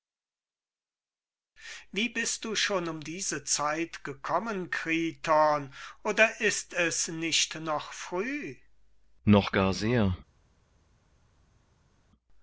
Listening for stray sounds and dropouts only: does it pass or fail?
pass